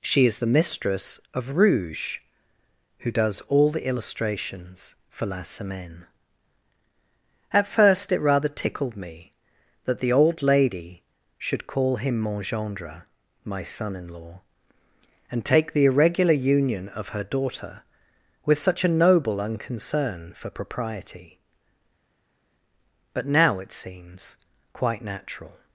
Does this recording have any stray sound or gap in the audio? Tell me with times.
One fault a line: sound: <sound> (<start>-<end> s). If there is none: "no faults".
no faults